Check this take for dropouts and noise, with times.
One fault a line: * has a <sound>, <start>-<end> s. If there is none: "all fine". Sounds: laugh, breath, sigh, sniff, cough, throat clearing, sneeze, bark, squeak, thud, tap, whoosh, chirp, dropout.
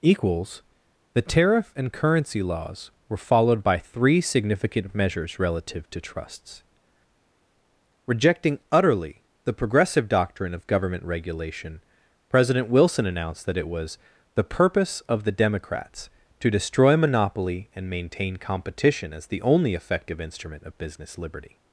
all fine